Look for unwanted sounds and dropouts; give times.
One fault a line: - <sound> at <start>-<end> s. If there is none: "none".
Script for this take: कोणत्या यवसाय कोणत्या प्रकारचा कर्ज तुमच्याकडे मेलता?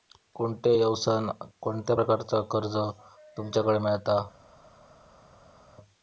none